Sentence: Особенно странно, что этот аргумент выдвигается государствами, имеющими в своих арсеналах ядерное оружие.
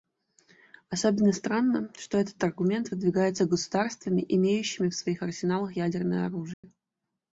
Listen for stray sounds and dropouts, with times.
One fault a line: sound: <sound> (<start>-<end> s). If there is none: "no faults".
sound: dropout (6.5-6.6 s)